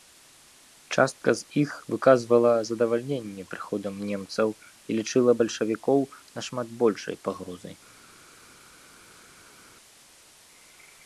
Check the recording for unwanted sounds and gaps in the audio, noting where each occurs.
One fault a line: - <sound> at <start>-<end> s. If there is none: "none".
none